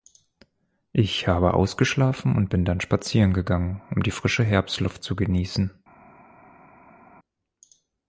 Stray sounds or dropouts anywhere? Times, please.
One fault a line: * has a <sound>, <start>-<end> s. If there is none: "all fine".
all fine